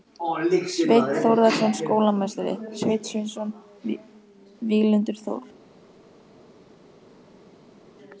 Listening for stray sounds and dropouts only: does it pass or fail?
pass